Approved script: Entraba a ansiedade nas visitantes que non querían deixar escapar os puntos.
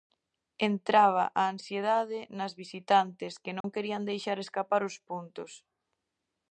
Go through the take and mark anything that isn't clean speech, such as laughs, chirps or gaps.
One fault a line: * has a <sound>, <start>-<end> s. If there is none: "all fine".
* has a dropout, 3.6-3.6 s